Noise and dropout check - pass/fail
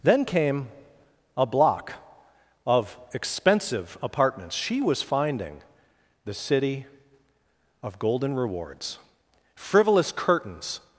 pass